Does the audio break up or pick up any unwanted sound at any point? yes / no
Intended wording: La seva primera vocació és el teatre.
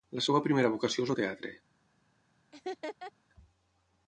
yes